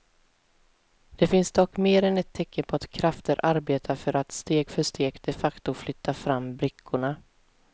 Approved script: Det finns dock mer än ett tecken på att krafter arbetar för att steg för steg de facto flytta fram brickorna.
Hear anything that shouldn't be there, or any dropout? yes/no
no